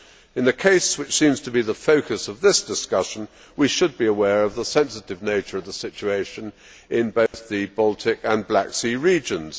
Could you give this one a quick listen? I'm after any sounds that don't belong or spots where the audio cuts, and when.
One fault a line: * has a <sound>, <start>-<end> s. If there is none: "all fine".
* has a dropout, 7.3-7.3 s